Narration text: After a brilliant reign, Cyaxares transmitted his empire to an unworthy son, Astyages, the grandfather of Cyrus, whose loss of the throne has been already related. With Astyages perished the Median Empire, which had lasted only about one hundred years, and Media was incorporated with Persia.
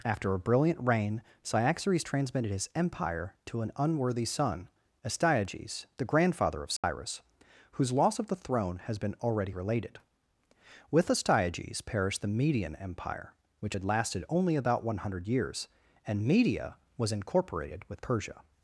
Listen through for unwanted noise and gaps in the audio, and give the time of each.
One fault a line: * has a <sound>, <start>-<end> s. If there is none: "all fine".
* has a dropout, 6.8-6.8 s